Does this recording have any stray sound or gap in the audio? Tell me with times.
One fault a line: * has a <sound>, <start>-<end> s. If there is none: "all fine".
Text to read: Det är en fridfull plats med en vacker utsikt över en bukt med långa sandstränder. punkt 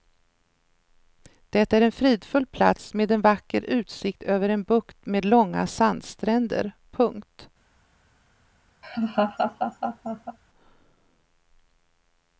* has a laugh, 8.8-10.4 s